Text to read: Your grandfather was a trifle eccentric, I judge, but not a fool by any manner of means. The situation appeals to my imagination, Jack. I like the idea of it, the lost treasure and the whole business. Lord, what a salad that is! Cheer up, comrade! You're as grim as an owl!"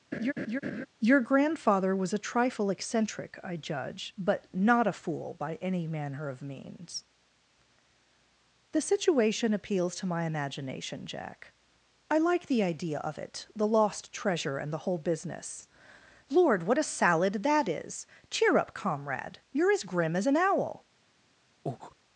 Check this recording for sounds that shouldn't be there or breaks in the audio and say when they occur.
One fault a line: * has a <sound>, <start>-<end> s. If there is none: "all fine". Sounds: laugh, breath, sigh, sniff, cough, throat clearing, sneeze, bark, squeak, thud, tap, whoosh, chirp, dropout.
* has a laugh, 0.1-0.9 s
* has a breath, 21.7-22.0 s